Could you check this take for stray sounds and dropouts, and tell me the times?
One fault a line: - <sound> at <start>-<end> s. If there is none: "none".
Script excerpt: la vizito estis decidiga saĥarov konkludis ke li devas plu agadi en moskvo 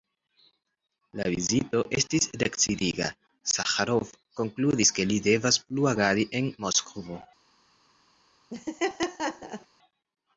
- laugh at 8.5-9.7 s